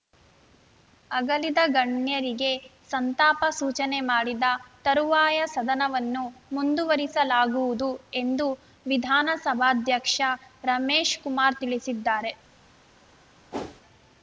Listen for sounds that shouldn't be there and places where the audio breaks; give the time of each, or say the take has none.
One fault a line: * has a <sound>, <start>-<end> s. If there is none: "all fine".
* has a whoosh, 13.5-13.8 s